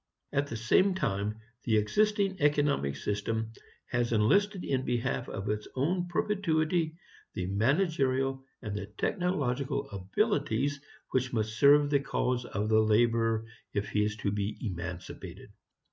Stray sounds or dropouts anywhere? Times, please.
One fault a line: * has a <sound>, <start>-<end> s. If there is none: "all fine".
all fine